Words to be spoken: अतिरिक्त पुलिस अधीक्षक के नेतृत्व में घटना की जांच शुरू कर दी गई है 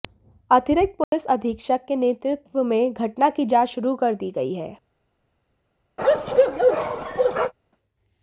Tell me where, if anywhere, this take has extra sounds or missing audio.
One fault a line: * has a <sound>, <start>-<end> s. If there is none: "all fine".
* has a dropout, 1.0-1.1 s
* has a bark, 6.0-7.5 s